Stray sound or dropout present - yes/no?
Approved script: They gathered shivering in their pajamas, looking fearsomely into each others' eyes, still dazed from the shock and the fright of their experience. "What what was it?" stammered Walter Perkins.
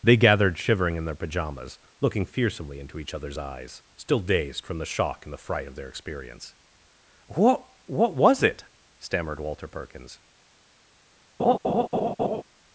yes